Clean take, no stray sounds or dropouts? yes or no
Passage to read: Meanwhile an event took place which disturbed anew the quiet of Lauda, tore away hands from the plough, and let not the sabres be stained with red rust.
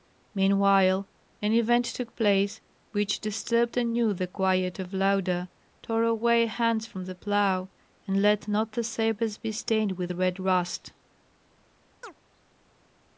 no